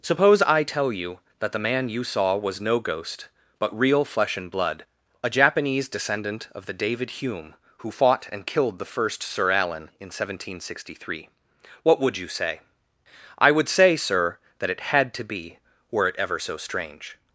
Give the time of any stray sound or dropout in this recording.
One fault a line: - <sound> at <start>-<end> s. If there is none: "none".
none